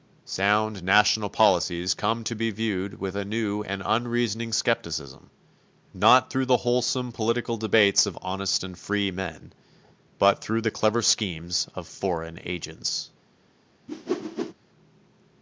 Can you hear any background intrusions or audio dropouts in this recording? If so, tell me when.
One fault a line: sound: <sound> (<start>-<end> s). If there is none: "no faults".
sound: whoosh (13.9-14.5 s)